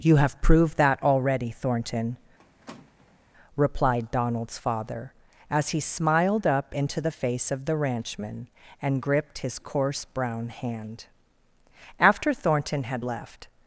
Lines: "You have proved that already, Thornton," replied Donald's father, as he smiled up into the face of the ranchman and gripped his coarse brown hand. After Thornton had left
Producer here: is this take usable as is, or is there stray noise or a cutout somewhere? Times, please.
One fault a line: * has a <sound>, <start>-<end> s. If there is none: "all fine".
* has a squeak, 2.4-3.2 s